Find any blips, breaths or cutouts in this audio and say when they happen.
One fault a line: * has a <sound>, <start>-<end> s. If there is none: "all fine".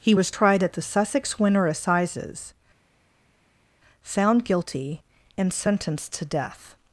all fine